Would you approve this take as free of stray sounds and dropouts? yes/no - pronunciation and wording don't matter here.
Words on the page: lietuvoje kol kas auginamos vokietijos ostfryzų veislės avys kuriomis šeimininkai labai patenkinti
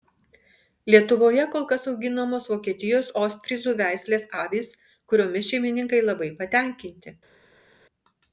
yes